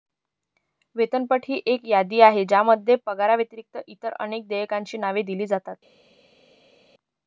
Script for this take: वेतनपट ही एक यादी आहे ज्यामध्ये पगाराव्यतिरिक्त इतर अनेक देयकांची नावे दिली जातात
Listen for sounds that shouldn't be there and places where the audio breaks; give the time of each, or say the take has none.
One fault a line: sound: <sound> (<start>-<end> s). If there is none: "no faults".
no faults